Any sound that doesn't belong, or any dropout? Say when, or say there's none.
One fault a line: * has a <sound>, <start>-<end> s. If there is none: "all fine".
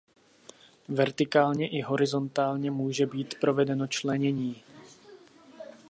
all fine